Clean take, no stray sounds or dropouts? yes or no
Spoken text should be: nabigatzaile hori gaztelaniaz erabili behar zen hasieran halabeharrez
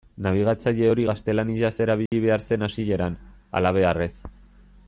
no